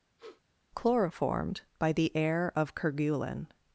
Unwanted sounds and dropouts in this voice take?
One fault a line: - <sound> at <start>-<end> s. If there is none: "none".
- sniff at 0.2-0.4 s